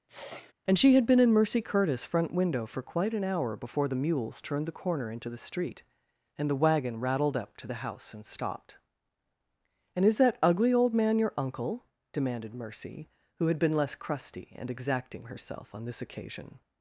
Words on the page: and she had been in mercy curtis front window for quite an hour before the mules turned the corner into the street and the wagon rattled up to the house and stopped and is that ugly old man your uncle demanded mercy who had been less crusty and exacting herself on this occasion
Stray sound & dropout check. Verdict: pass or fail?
fail